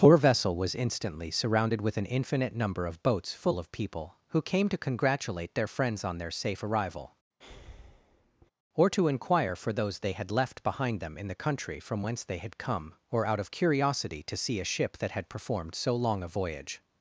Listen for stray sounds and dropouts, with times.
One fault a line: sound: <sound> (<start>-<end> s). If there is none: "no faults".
sound: breath (7.4-8.5 s)